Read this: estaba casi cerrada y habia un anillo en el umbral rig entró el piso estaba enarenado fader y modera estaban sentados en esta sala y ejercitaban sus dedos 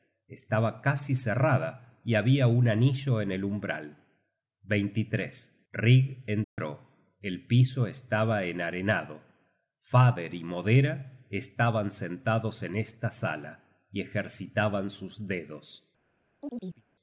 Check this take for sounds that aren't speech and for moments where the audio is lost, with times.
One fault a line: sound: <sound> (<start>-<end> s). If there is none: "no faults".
sound: dropout (6.4-6.6 s)
sound: chirp (16.4-16.8 s)